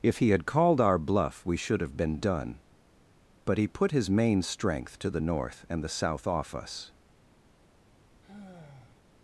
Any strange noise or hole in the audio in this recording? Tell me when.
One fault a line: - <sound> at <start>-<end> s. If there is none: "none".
- sigh at 8.2-9.0 s